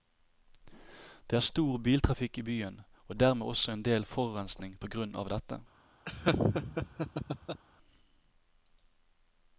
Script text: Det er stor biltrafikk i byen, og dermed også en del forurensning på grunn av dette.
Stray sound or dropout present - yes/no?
yes